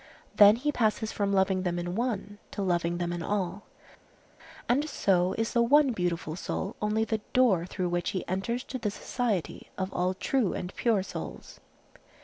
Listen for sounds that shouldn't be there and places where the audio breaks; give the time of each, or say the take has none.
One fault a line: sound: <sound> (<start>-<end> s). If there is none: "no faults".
no faults